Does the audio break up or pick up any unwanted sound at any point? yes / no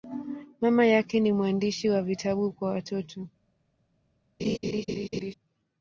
yes